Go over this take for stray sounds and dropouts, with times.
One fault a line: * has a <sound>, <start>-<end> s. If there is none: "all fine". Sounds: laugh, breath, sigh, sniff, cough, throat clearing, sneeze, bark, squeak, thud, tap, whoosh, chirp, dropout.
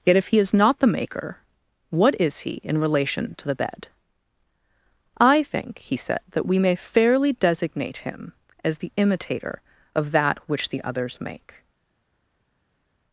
all fine